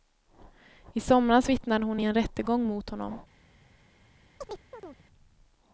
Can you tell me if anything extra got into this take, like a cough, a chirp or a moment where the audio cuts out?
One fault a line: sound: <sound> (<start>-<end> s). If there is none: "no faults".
sound: chirp (4.4-5.0 s)